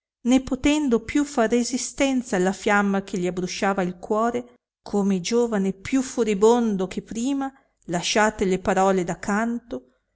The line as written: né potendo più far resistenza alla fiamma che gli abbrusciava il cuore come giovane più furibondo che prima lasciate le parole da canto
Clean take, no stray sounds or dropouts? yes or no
yes